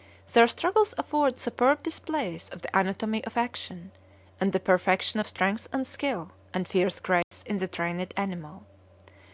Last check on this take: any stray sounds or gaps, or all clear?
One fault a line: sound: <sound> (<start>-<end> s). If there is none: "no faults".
sound: dropout (7.2-7.3 s)